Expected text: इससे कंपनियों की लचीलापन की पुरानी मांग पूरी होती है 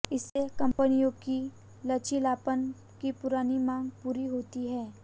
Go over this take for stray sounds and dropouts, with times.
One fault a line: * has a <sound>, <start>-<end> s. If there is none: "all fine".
* has a dropout, 0.7-0.8 s